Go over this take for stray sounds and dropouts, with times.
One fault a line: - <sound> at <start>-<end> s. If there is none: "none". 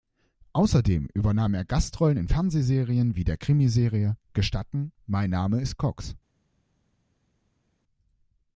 none